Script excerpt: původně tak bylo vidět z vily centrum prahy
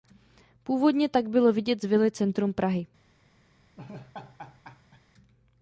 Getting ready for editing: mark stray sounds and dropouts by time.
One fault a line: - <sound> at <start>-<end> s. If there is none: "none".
- laugh at 3.8-5.0 s